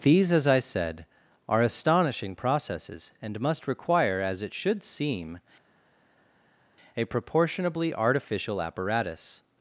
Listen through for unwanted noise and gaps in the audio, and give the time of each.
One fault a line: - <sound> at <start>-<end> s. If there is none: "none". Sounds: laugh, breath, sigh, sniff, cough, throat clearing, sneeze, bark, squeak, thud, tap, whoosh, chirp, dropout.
none